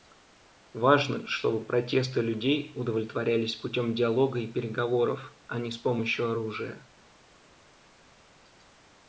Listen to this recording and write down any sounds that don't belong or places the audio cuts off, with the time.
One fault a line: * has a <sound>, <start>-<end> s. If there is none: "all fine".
all fine